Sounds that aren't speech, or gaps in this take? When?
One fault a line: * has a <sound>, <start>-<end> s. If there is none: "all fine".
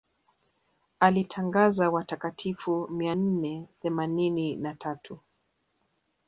all fine